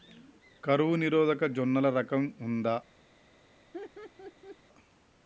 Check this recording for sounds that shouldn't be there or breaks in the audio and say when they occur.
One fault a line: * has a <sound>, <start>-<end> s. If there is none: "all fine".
* has a laugh, 3.7-4.6 s